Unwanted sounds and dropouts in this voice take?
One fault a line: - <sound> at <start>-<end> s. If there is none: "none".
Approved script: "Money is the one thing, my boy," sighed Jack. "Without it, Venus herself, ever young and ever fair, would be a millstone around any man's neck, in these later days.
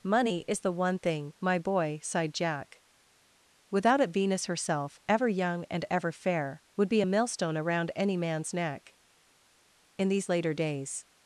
none